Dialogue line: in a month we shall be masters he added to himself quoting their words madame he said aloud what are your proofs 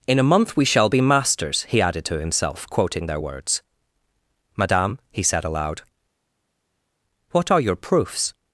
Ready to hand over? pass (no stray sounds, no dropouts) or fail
pass